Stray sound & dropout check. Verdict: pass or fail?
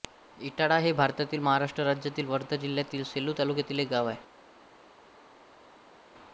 pass